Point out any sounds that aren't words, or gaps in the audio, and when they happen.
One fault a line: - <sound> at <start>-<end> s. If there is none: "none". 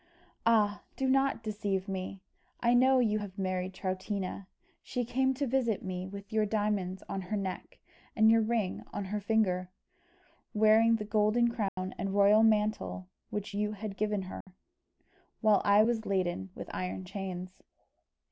- dropout at 11.7-11.8 s
- dropout at 14.4-14.5 s